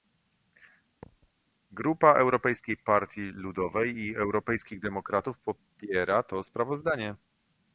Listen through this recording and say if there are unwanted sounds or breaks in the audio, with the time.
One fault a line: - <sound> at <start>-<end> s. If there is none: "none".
- thud at 1.0-1.3 s